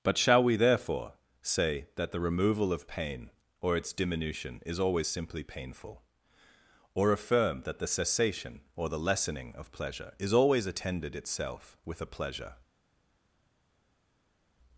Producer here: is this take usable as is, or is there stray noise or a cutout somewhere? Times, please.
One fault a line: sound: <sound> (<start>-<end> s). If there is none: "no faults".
no faults